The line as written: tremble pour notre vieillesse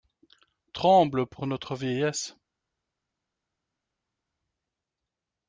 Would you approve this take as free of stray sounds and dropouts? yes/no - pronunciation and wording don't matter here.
yes